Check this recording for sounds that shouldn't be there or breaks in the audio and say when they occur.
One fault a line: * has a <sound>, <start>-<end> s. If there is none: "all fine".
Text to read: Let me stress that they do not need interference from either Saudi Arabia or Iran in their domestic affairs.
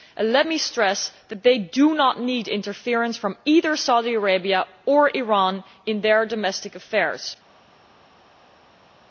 all fine